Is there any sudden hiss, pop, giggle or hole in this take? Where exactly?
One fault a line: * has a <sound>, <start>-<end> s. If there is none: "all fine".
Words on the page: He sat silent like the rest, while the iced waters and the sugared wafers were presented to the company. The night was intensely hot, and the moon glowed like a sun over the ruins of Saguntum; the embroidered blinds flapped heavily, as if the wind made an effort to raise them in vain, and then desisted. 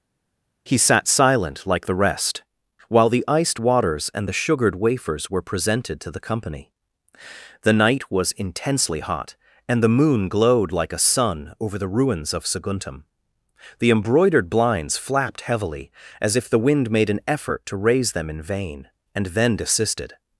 all fine